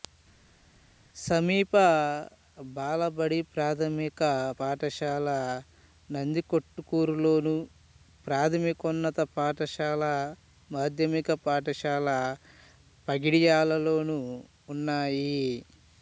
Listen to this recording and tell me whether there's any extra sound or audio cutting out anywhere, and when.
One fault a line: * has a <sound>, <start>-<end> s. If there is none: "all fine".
all fine